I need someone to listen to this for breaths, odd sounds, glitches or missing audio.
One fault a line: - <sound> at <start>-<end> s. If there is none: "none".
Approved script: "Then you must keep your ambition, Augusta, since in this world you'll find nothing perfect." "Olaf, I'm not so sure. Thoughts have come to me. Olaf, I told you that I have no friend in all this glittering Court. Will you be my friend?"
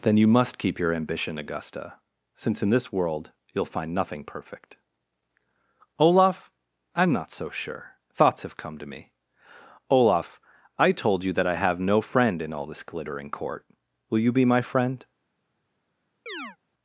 - chirp at 16.3-16.6 s